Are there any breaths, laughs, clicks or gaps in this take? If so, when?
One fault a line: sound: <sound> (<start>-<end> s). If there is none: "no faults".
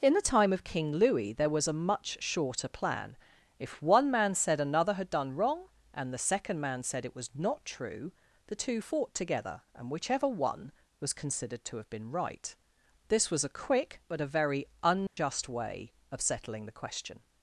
sound: dropout (15.1-15.2 s)